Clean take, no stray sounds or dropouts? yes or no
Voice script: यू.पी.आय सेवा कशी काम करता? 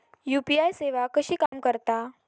no